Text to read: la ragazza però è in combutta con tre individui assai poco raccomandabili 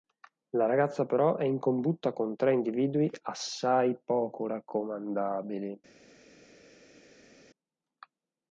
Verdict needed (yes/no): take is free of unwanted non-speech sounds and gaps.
yes